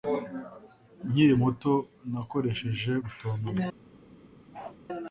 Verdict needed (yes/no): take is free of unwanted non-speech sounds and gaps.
no